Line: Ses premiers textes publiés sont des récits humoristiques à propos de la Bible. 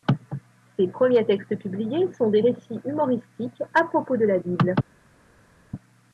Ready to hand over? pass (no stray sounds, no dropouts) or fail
pass